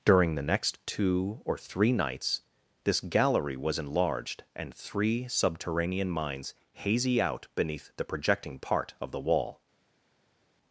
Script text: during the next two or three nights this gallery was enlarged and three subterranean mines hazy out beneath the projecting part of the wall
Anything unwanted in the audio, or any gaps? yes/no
no